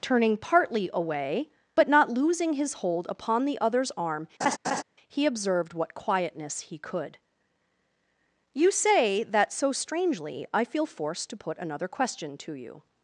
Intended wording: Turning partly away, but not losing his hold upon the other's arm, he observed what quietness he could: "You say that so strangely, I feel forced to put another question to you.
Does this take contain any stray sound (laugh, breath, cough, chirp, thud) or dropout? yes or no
yes